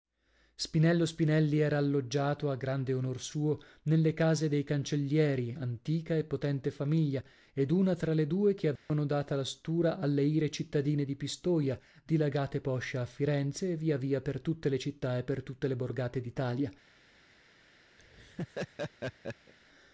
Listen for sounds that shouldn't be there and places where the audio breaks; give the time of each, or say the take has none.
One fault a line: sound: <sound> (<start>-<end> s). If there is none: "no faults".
sound: dropout (8.8-8.9 s)
sound: laugh (18.0-19.5 s)